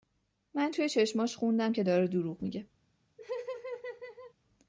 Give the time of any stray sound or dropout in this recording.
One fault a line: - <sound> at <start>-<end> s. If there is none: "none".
- laugh at 3.2-4.3 s